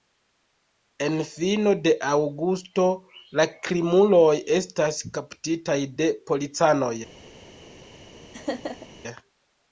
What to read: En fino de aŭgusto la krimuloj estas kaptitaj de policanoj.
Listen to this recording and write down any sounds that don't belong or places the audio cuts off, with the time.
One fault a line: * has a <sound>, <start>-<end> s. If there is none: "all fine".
* has a laugh, 8.3-8.9 s